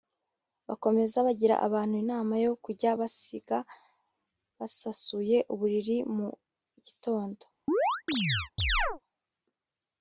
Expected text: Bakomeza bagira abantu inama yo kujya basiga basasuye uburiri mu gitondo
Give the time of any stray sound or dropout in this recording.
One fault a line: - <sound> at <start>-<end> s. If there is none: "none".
- chirp at 7.7-9.0 s